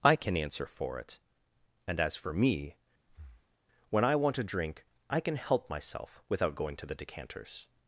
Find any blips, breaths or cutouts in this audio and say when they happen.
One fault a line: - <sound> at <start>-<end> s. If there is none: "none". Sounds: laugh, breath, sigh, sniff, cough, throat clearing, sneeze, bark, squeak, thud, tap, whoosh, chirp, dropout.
- breath at 3.1-3.6 s